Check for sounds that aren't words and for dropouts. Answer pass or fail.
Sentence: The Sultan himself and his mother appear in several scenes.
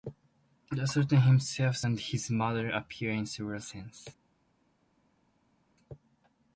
pass